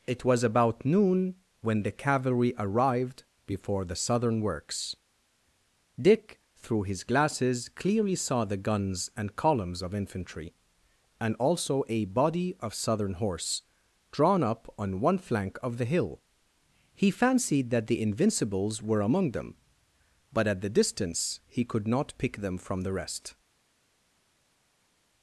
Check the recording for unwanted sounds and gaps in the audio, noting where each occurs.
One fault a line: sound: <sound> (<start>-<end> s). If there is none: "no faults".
no faults